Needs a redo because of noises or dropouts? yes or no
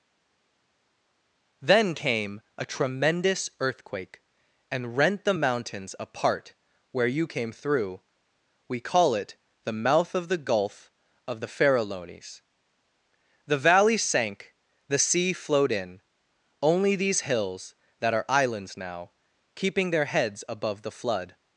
no